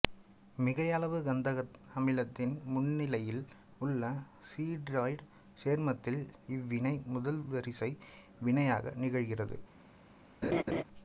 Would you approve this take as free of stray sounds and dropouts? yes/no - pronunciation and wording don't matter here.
no